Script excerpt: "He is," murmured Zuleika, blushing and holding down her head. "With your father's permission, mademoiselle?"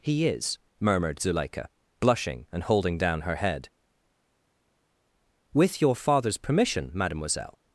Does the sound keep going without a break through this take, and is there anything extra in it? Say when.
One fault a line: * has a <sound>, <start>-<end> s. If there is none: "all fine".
all fine